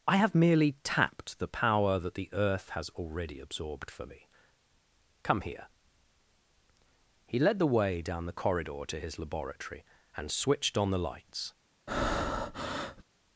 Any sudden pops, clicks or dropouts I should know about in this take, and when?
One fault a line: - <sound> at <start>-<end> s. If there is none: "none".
- breath at 11.9-13.0 s